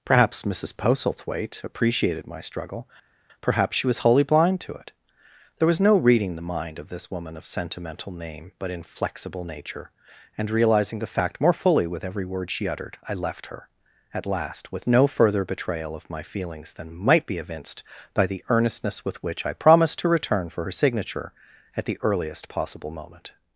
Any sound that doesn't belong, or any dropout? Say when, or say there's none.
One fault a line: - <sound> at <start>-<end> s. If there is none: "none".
none